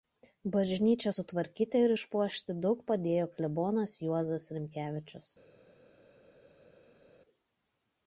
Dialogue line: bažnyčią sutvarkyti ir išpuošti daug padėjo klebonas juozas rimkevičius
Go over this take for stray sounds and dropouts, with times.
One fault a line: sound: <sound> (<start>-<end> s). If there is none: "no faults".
no faults